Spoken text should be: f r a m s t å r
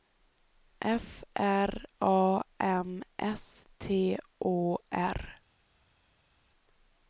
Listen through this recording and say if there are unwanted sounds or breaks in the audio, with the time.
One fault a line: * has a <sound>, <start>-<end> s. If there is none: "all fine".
all fine